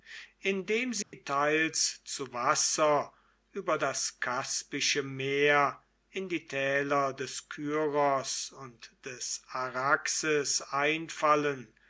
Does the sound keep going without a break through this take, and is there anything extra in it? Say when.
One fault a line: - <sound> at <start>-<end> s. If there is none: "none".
- dropout at 1.0-1.1 s